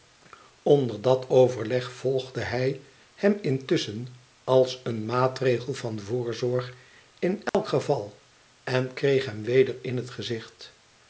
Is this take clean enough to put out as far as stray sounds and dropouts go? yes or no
no